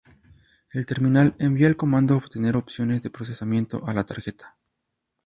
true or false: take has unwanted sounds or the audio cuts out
false